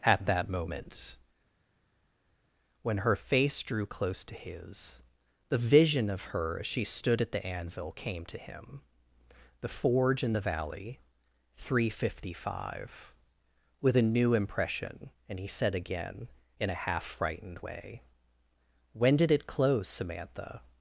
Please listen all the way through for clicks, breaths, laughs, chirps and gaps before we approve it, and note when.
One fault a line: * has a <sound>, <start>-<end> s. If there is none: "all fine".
all fine